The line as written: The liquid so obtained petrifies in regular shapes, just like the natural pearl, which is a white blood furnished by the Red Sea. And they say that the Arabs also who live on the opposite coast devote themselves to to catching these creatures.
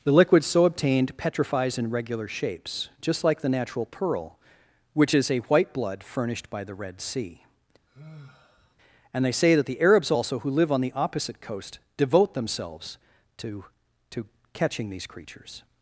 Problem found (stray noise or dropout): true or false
true